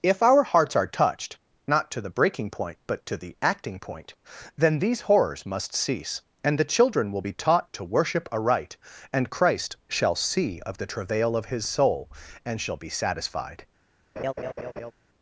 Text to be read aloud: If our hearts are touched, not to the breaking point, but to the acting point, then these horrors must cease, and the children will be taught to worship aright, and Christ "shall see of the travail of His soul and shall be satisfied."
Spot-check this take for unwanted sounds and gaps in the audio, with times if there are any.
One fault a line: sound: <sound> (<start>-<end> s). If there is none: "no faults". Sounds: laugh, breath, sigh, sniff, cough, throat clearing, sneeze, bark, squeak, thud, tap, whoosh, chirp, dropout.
sound: laugh (14.2-14.9 s)